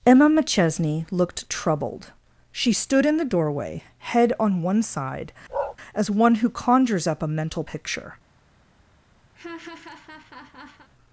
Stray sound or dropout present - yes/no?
yes